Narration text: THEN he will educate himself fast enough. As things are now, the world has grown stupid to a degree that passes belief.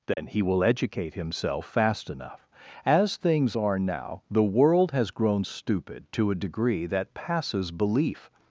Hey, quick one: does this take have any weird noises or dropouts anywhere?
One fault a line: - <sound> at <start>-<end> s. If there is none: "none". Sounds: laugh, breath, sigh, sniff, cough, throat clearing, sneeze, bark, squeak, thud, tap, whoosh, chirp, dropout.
- dropout at 0.1-0.2 s